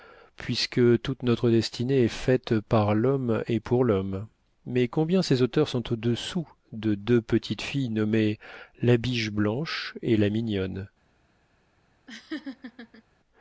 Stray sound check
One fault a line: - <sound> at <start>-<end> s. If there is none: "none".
- laugh at 12.1-13.0 s